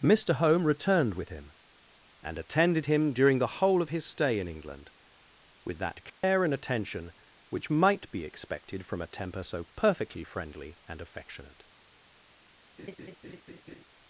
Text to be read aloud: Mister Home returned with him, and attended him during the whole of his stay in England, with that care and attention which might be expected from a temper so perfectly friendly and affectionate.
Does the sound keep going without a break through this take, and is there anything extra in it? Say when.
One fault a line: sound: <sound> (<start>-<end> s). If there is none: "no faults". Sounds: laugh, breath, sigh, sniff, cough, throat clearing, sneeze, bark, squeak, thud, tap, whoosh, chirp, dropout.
sound: dropout (6.1-6.2 s)
sound: laugh (12.8-13.8 s)